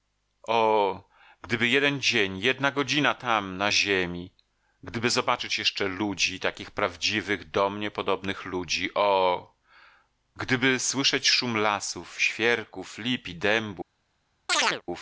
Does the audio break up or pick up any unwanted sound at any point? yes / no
yes